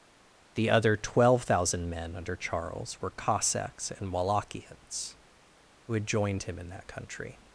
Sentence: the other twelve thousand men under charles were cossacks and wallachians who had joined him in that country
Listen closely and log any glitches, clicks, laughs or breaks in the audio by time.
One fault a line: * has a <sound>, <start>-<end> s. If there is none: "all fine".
all fine